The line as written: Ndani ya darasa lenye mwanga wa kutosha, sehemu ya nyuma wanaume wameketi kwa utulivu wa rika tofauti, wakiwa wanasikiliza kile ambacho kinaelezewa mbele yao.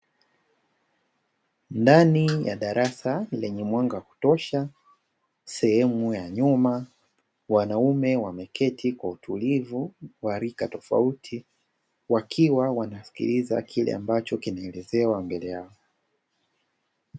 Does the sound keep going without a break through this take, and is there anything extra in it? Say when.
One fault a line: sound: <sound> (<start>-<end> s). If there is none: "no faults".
no faults